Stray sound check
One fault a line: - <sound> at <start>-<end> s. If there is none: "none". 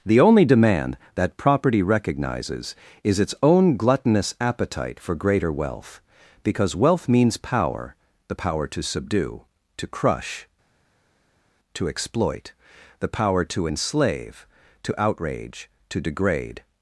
none